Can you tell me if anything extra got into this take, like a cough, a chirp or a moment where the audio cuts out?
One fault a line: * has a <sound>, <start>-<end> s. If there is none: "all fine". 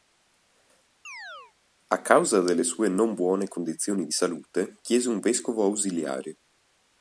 * has a chirp, 1.0-1.5 s